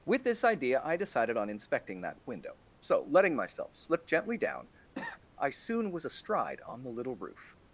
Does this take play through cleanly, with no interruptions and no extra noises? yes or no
no